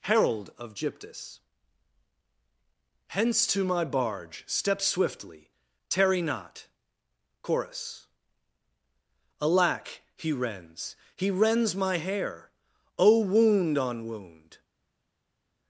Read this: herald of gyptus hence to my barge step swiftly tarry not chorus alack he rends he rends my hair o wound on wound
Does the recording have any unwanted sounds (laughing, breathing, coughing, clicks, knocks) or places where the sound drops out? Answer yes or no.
no